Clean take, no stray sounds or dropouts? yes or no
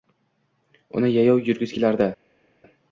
yes